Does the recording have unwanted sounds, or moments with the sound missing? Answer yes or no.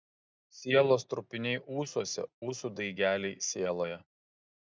no